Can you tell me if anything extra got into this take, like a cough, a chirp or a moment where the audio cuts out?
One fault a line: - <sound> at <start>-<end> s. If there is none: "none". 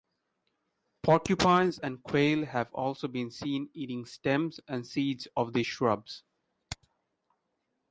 none